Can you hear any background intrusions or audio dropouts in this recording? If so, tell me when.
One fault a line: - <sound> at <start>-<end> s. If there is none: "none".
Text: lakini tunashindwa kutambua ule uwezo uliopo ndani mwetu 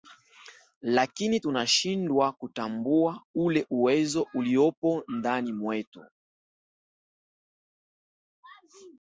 none